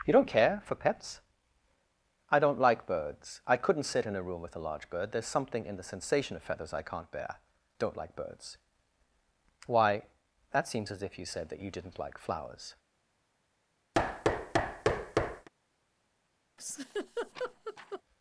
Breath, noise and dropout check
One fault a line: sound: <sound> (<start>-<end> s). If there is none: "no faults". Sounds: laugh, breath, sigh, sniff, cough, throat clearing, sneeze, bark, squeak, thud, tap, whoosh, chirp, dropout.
sound: thud (13.9-15.5 s)
sound: laugh (16.6-18.0 s)